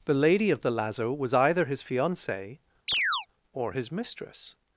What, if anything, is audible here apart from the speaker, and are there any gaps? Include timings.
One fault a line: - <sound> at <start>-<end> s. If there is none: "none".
- chirp at 2.9-3.3 s